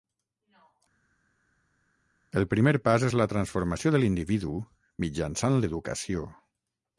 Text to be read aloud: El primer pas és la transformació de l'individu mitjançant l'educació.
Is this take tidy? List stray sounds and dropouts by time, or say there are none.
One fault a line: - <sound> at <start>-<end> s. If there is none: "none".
none